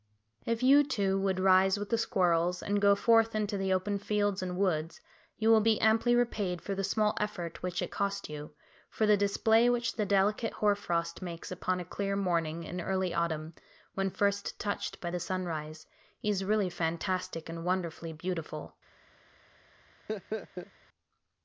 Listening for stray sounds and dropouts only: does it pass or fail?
fail